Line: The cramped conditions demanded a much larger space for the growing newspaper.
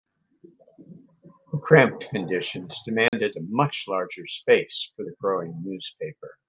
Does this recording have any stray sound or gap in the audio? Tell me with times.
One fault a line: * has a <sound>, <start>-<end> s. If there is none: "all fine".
* has a dropout, 3.1-3.1 s